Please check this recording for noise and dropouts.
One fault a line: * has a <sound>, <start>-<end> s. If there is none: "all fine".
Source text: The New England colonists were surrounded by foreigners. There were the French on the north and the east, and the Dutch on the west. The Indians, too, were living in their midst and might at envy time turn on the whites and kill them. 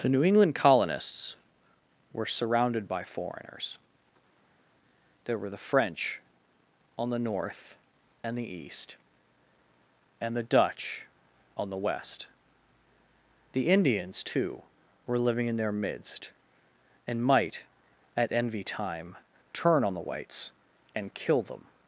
all fine